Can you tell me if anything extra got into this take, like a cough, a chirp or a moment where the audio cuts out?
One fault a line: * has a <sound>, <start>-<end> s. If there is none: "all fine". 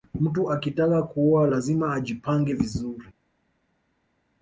all fine